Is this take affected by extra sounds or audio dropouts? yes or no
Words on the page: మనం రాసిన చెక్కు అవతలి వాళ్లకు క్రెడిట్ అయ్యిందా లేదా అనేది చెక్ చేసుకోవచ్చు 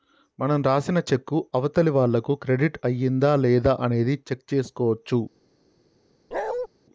yes